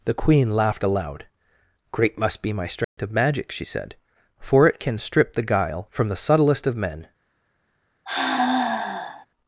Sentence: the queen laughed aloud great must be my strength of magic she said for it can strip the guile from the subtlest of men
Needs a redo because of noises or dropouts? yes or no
yes